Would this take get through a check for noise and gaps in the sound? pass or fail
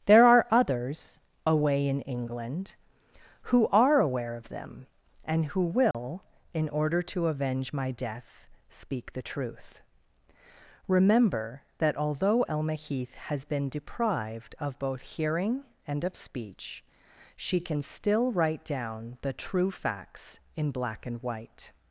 fail